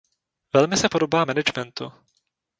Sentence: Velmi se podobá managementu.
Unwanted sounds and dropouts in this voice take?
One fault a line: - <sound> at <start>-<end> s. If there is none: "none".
none